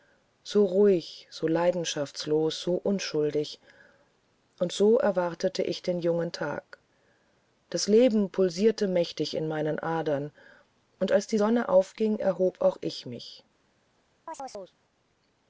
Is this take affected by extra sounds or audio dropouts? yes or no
yes